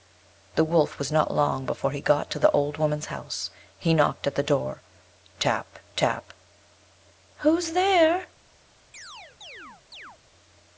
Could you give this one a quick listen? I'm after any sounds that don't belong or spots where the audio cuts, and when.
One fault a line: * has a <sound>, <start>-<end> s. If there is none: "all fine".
* has a chirp, 8.9-10.2 s